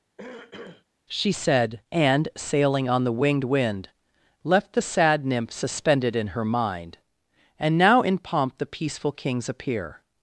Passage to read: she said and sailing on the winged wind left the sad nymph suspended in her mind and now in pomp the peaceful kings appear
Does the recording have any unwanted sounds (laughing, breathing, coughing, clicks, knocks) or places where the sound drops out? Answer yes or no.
yes